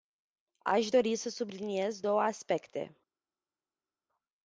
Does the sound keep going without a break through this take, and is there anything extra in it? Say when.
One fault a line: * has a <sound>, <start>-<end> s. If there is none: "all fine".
all fine